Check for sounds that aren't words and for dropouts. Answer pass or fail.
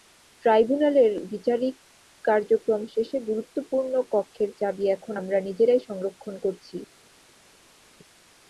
pass